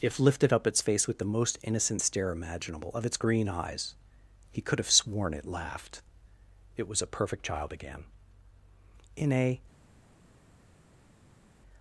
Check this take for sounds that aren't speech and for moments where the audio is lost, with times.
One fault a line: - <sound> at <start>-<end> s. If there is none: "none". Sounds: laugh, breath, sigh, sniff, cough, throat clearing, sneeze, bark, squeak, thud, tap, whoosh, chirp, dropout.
none